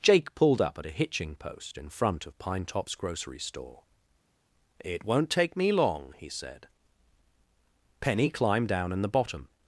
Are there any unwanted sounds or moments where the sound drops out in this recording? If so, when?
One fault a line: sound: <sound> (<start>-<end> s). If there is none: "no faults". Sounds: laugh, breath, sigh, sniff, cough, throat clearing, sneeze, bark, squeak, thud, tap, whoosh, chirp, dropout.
no faults